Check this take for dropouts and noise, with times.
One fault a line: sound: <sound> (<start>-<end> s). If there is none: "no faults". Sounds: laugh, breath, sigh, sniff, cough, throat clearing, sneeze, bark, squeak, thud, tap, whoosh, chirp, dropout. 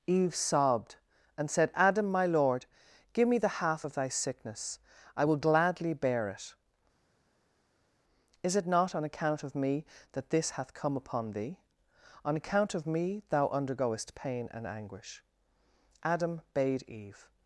no faults